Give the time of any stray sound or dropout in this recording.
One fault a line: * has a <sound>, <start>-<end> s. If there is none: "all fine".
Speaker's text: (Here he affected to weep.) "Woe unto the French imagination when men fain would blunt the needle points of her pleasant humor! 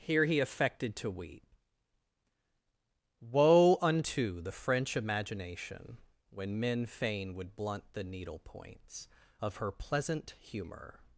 all fine